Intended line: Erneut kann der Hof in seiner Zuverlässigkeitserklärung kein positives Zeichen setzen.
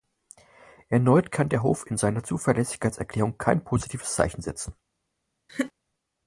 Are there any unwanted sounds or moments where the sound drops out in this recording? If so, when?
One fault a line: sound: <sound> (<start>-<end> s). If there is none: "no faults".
sound: laugh (5.5-5.7 s)